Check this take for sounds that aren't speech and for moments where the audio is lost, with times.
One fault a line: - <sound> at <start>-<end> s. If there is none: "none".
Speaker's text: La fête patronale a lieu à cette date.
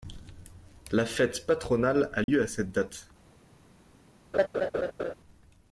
- dropout at 2.2-2.3 s
- laugh at 4.3-5.1 s